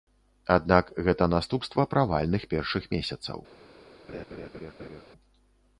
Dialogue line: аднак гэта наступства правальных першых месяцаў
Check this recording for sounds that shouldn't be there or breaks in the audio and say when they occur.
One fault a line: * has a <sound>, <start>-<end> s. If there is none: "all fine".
* has a laugh, 4.1-5.0 s